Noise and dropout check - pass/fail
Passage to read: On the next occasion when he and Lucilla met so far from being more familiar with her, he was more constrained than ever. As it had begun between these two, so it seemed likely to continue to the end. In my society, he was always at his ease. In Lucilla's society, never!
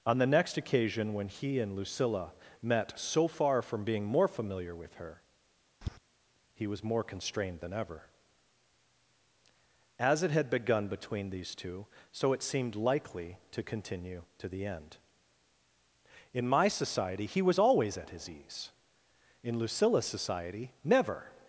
fail